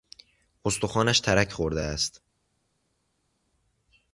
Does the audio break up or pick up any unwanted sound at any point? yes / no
no